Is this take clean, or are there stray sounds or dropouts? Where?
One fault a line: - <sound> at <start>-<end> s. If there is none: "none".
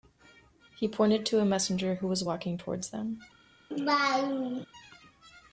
- laugh at 3.7-4.7 s